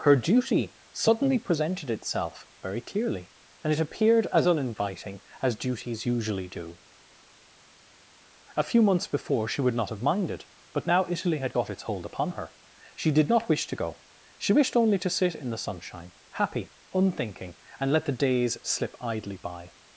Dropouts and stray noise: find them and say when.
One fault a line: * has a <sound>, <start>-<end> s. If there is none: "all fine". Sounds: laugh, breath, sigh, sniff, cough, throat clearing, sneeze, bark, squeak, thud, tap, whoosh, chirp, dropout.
all fine